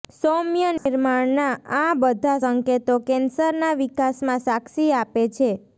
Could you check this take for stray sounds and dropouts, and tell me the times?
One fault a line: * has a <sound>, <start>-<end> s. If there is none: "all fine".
* has a dropout, 0.8-0.9 s